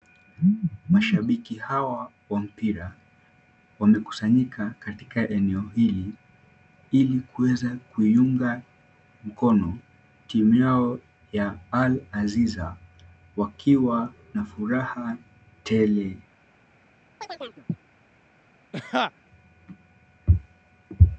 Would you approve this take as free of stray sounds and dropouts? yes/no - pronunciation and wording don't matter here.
no